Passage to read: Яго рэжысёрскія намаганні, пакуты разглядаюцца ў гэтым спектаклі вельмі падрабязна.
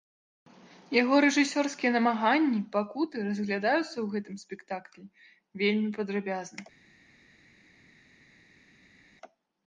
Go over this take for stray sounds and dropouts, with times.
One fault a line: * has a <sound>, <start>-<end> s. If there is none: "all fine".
all fine